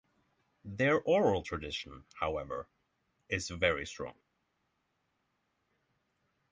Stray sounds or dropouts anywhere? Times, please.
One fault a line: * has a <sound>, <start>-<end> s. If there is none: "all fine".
all fine